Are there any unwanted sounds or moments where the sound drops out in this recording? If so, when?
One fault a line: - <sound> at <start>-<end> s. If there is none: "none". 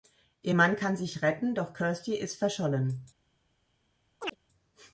- chirp at 4.2-4.4 s